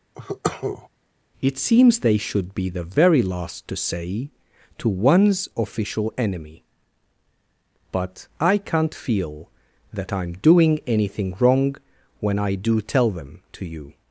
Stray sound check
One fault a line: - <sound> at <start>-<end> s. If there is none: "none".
- cough at 0.1-0.9 s